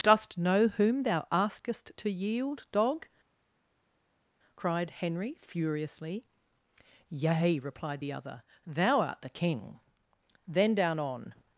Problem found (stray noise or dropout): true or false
false